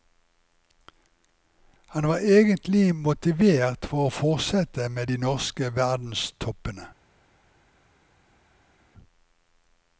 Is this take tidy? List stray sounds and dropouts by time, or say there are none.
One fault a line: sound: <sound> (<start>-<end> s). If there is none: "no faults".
no faults